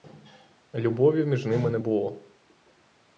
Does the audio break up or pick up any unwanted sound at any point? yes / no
no